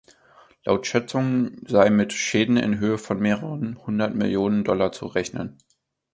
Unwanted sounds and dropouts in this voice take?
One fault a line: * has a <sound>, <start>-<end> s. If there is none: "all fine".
all fine